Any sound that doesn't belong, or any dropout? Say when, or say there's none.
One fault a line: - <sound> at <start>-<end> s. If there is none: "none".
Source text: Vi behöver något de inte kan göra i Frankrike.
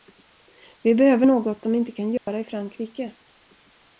- dropout at 2.2-2.3 s